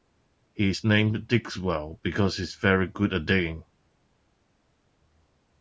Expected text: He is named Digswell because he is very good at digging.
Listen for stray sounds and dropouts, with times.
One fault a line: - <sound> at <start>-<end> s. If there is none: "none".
none